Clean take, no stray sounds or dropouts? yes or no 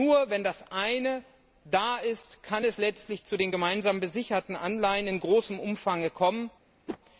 no